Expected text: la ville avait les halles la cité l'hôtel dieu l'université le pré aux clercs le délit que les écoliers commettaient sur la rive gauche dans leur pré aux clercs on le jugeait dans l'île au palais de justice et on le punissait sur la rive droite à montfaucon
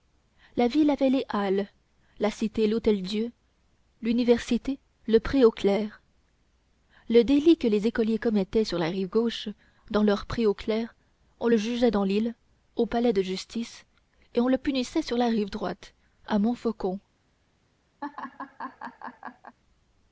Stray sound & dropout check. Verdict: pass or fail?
fail